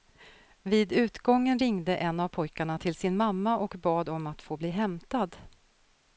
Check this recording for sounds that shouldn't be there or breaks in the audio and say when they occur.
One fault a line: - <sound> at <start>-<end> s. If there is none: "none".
none